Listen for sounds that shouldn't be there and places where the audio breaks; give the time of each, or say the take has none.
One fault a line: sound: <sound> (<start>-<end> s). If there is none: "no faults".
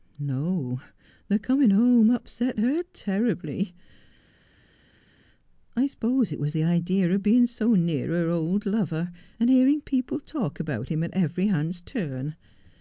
no faults